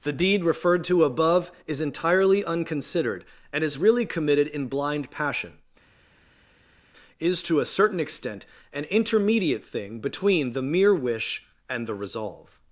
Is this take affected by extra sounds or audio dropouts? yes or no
no